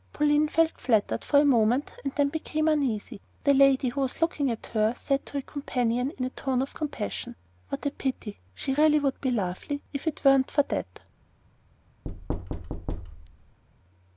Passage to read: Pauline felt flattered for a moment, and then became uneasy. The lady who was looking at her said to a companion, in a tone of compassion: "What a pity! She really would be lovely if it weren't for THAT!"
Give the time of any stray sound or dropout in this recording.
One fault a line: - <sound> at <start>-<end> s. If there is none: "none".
- thud at 12.0-13.6 s